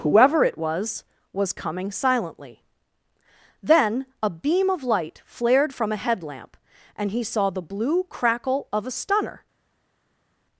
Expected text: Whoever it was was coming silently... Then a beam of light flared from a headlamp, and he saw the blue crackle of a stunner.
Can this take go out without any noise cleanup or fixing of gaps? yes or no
yes